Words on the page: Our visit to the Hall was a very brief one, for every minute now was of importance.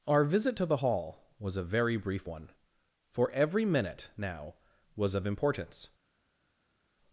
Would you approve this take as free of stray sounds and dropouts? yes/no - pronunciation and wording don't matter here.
yes